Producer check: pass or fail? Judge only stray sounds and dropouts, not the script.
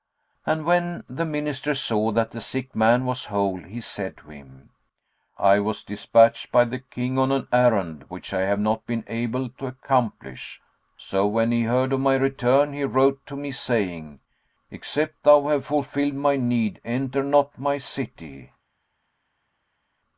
pass